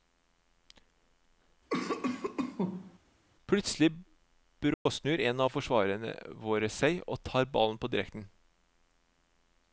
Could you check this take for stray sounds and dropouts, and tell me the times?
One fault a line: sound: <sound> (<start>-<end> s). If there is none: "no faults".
sound: cough (1.7-3.0 s)
sound: dropout (4.7-4.9 s)